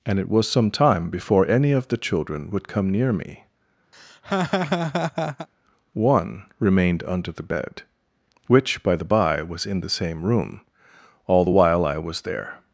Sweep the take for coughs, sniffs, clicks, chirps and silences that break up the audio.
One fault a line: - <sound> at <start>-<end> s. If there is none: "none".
- laugh at 3.9-5.5 s